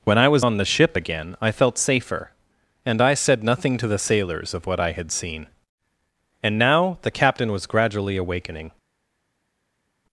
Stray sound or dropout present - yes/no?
no